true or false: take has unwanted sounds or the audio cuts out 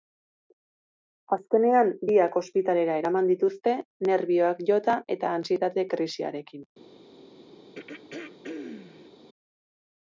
true